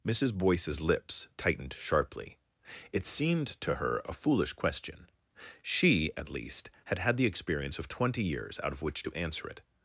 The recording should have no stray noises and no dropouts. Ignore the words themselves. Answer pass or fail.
pass